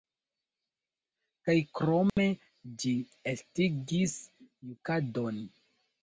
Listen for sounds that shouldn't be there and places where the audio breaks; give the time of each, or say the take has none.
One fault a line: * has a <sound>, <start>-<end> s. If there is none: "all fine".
* has a dropout, 2.1-2.2 s